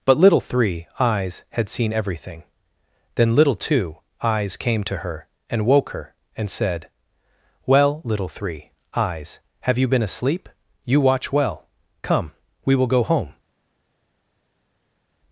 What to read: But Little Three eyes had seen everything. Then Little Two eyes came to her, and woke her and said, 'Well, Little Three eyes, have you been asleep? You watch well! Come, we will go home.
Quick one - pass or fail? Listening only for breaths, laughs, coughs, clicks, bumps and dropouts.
pass